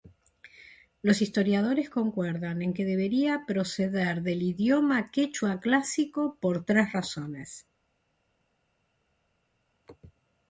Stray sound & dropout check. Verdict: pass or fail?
pass